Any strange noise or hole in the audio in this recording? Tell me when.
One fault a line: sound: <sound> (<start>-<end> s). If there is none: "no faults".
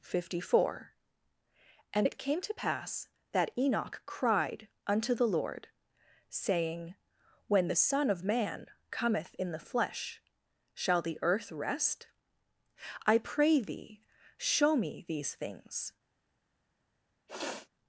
sound: sniff (17.3-17.7 s)